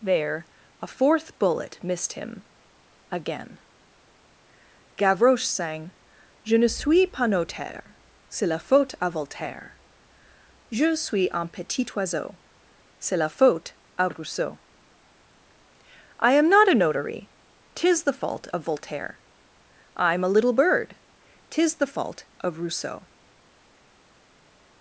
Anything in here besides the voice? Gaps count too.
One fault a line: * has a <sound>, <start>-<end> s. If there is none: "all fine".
all fine